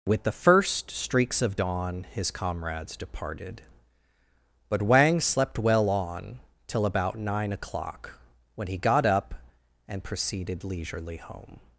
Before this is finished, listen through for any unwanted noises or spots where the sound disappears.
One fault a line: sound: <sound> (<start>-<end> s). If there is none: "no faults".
no faults